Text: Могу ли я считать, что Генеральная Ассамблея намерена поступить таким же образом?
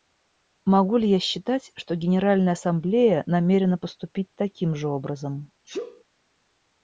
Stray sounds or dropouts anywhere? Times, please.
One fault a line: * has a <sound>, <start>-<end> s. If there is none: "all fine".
* has a sneeze, 5.6-6.0 s